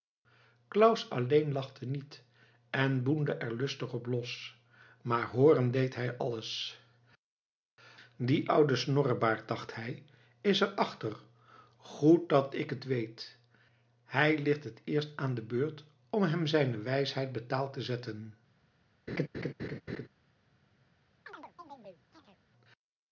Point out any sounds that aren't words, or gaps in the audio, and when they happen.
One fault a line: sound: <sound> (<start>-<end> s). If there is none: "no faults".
sound: laugh (19.1-20.1 s)
sound: chirp (21.3-22.4 s)